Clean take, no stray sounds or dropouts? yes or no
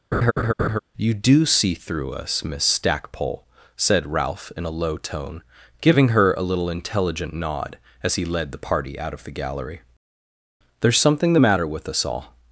no